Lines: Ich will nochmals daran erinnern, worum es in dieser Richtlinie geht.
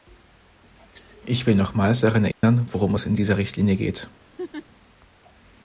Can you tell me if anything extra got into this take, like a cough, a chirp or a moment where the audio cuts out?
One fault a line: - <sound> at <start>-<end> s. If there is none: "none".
- dropout at 2.3-2.4 s
- laugh at 4.4-4.7 s